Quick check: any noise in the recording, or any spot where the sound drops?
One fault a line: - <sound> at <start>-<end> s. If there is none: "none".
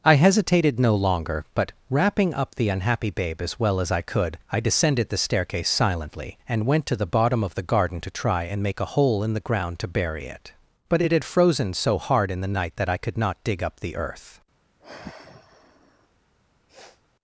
- sigh at 14.8-16.1 s
- sniff at 16.7-17.0 s